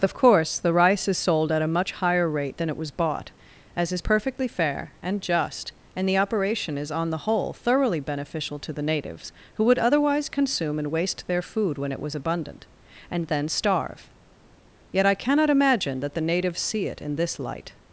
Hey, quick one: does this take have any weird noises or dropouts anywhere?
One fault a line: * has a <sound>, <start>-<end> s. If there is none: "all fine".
all fine